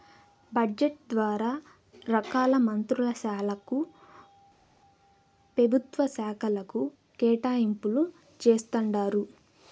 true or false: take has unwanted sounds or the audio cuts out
false